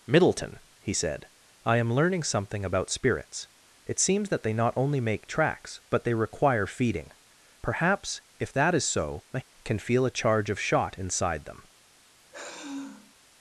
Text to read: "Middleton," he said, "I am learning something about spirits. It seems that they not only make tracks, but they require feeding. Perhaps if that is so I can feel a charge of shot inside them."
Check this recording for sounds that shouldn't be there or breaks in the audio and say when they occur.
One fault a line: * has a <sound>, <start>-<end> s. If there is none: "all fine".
* has a sigh, 12.3-13.1 s